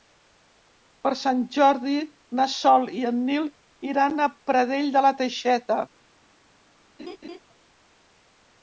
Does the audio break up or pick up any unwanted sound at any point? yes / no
yes